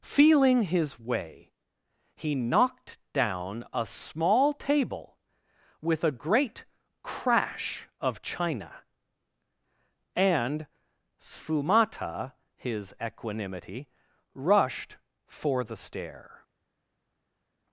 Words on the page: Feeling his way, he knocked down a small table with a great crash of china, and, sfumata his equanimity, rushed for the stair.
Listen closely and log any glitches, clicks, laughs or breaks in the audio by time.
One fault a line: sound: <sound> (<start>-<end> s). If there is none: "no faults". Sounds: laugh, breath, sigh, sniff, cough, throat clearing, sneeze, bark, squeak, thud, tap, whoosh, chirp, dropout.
no faults